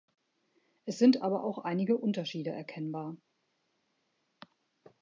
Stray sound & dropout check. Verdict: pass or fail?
pass